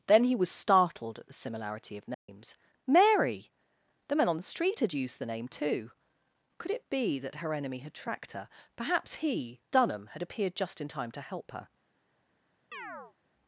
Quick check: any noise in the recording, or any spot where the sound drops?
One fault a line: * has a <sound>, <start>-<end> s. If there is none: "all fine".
* has a dropout, 2.1-2.3 s
* has a chirp, 12.7-13.1 s